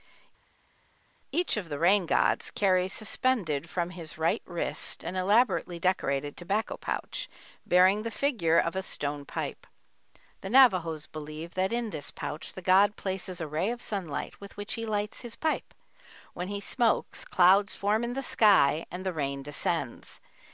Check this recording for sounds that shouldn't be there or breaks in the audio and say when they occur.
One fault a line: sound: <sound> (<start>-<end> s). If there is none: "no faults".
no faults